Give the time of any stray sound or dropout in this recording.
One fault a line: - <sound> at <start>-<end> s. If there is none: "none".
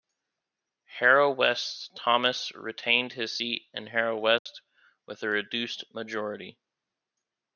- dropout at 4.4-4.5 s